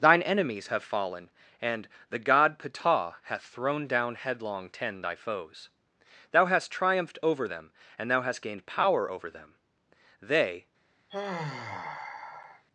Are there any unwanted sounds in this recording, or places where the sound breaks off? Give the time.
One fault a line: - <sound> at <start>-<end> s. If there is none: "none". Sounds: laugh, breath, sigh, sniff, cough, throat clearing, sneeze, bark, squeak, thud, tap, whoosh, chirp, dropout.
- sigh at 11.1-12.6 s